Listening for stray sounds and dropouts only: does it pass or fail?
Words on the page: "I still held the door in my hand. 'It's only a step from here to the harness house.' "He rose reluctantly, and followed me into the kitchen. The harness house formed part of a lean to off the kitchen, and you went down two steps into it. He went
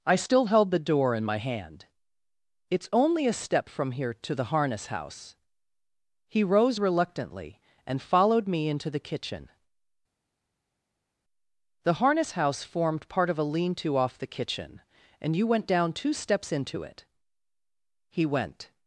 pass